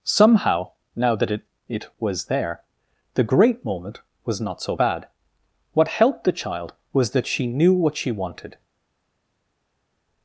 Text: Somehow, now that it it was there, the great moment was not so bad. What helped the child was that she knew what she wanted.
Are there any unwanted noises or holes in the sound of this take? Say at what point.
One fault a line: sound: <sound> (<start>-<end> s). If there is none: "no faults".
no faults